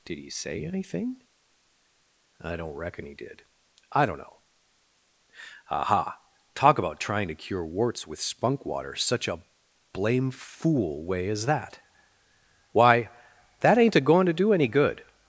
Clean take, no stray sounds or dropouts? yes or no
yes